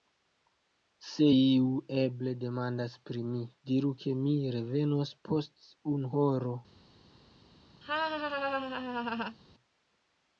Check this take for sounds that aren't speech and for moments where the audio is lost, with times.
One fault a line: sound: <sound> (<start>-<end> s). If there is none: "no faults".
sound: laugh (7.8-9.4 s)